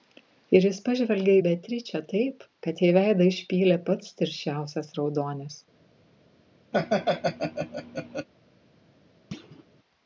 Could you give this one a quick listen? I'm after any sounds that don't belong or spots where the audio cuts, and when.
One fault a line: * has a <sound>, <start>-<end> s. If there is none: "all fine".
* has a laugh, 6.7-8.3 s
* has a thud, 9.3-9.6 s